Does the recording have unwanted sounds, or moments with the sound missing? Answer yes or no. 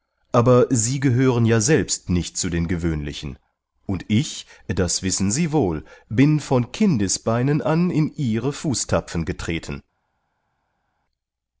no